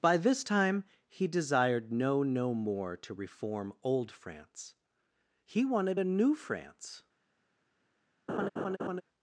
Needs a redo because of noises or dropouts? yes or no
yes